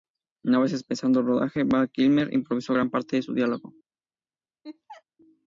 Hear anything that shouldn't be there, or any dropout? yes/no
yes